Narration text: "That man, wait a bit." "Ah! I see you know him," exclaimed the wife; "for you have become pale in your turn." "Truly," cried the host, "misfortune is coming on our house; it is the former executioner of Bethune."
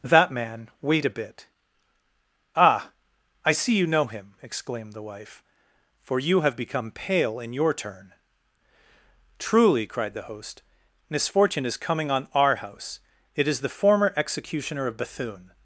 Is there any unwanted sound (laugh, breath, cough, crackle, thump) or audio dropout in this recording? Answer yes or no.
no